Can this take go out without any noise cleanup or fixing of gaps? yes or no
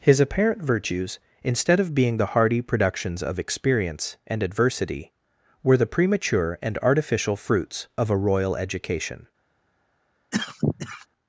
no